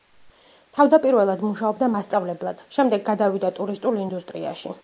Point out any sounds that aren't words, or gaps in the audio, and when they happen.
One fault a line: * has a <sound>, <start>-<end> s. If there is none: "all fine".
all fine